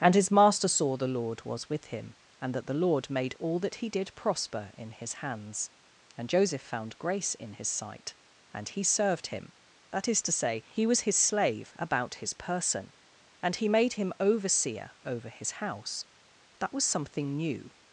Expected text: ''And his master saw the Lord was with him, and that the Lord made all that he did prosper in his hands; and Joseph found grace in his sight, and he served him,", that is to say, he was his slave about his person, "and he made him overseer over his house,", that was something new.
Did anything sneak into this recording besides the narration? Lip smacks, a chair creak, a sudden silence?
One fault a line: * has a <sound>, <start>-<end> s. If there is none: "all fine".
all fine